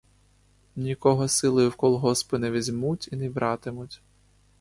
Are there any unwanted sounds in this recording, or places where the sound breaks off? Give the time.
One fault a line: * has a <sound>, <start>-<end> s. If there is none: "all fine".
all fine